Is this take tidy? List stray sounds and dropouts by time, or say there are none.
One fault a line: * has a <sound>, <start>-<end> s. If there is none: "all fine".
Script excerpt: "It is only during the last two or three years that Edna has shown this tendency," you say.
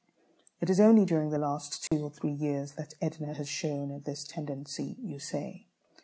* has a dropout, 1.9-1.9 s